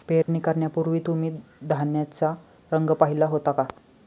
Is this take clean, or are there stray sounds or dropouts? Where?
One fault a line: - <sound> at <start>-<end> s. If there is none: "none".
- dropout at 0.2-0.3 s